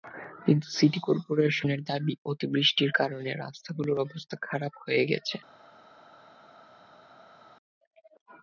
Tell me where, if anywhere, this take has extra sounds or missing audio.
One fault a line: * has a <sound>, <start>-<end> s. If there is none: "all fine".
all fine